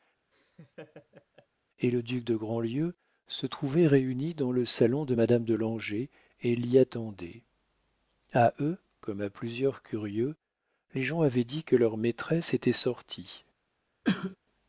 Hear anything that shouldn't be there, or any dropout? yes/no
yes